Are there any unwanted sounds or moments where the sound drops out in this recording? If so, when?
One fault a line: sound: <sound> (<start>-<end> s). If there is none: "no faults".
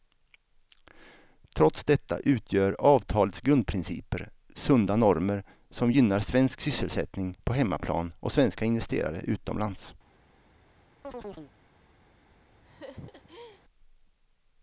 sound: chirp (11.0-11.5 s)
sound: laugh (12.6-13.6 s)